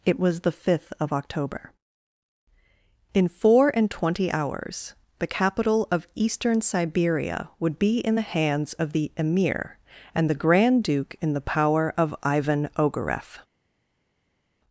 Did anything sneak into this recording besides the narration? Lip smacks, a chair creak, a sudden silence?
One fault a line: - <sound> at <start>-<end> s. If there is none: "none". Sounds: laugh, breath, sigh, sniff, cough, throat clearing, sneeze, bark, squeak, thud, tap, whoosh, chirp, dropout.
none